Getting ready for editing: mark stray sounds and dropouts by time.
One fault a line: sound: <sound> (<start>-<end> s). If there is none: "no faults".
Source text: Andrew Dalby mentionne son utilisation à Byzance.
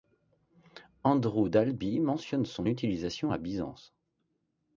no faults